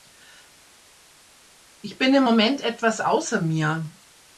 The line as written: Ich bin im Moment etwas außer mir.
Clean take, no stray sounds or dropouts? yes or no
yes